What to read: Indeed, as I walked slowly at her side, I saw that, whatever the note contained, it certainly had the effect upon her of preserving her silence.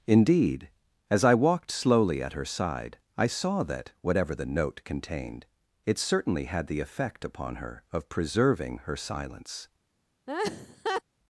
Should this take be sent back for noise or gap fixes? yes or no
yes